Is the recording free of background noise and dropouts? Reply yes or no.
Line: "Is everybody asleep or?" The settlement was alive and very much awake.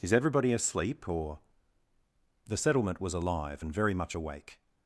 yes